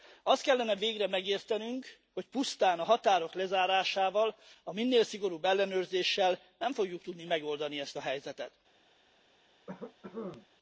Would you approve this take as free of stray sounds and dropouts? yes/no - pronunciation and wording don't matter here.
no